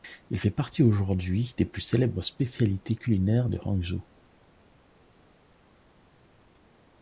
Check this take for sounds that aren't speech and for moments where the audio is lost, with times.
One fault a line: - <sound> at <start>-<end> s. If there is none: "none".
none